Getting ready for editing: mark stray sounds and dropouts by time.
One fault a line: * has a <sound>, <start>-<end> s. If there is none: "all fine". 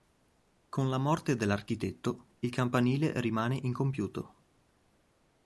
all fine